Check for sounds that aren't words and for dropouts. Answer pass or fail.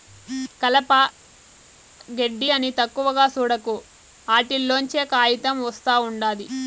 pass